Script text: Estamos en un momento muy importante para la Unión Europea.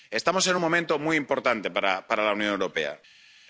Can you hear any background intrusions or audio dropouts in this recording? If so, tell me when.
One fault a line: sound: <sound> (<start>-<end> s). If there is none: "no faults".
no faults